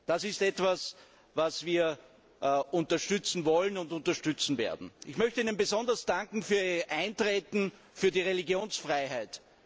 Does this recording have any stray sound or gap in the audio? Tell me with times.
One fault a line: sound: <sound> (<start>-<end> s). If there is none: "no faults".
no faults